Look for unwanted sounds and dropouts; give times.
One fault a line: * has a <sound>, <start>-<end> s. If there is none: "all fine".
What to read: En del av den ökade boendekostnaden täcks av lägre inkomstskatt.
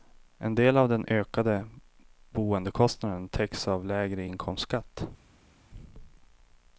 all fine